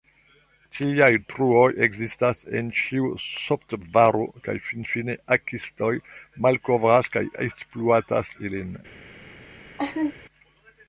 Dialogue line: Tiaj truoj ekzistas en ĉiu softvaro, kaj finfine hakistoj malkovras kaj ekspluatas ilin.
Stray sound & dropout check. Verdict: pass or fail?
fail